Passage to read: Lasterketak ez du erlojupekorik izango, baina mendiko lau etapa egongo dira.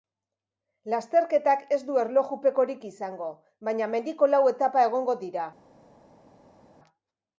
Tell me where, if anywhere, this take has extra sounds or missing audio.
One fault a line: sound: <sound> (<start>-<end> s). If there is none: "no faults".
no faults